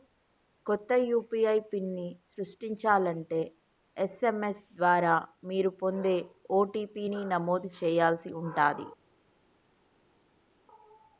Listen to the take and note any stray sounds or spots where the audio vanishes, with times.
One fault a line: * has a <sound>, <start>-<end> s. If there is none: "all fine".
all fine